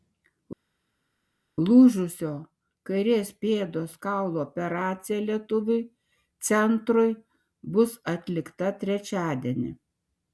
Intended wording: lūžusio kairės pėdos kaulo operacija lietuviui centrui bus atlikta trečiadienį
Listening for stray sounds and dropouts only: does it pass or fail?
pass